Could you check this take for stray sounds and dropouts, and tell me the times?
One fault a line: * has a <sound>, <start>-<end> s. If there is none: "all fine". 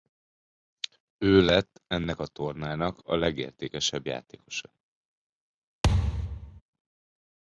* has a thud, 5.8-6.6 s